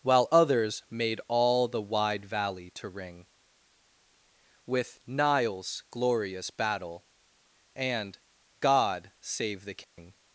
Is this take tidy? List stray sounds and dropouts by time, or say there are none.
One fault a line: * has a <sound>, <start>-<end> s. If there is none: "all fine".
* has a dropout, 9.8-10.0 s